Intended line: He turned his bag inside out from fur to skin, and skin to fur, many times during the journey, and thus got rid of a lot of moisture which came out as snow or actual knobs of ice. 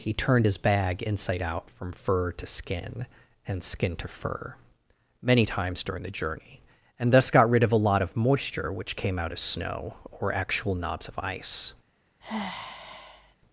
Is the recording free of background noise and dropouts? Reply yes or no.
no